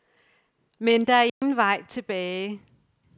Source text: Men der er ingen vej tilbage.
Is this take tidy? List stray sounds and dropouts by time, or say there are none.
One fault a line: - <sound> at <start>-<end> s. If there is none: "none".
- dropout at 1.3-1.4 s